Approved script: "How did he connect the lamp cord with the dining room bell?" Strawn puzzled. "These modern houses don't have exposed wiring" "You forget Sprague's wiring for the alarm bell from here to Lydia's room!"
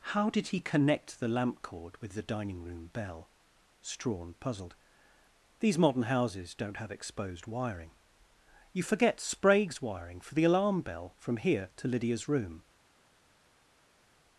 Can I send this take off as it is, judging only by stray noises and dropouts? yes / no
yes